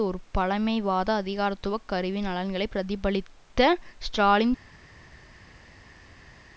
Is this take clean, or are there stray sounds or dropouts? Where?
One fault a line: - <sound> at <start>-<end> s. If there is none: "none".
none